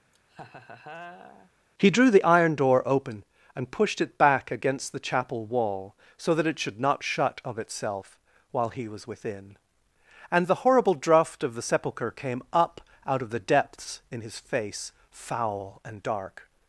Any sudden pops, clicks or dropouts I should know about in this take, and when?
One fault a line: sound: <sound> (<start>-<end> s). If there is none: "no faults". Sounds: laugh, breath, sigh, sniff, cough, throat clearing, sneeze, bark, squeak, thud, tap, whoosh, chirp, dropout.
sound: laugh (0.1-1.5 s)